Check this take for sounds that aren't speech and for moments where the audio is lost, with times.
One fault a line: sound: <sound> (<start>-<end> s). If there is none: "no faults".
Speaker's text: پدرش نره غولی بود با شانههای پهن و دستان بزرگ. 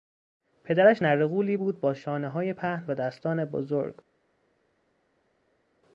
no faults